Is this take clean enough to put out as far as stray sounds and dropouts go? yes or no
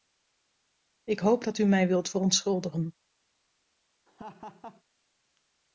no